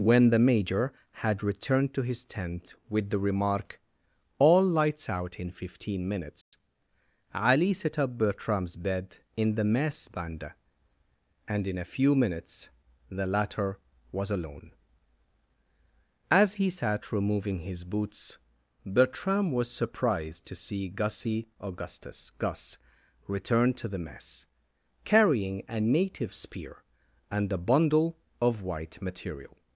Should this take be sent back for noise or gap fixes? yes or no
yes